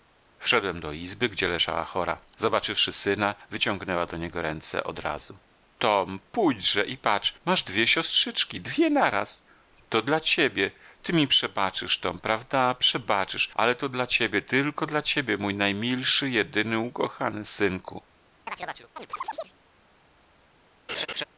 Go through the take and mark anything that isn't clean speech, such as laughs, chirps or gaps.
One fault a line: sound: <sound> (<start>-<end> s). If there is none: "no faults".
sound: chirp (18.5-19.6 s)
sound: laugh (20.9-21.2 s)